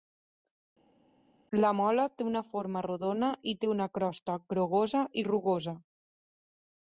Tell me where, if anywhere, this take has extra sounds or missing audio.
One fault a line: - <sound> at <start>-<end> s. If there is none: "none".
none